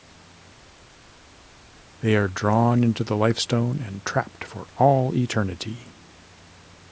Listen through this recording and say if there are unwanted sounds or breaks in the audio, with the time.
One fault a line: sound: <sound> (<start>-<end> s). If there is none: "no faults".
no faults